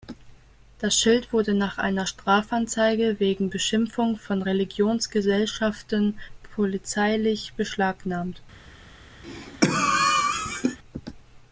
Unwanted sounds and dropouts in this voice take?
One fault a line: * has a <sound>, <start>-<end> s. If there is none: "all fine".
* has a cough, 9.2-10.8 s